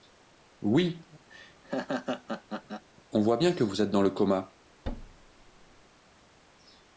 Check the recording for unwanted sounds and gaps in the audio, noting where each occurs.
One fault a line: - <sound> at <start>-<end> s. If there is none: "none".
- laugh at 1.3-2.9 s
- thud at 4.8-5.8 s